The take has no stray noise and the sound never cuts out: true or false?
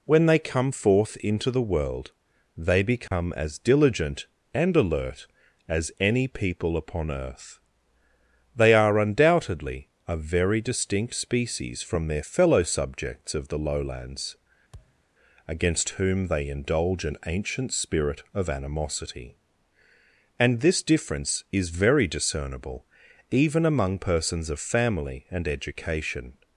false